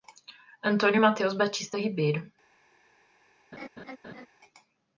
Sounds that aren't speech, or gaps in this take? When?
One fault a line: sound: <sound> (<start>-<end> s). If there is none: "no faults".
sound: laugh (3.5-4.3 s)